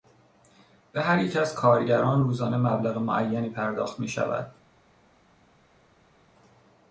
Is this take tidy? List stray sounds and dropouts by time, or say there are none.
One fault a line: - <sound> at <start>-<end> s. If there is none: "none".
none